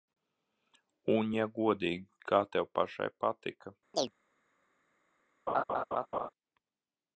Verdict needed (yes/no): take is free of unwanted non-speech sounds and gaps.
no